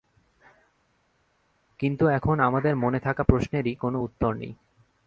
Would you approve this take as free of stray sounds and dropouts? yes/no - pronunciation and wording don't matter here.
yes